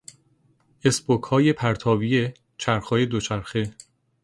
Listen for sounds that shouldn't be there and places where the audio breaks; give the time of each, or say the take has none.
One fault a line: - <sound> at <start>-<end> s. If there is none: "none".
none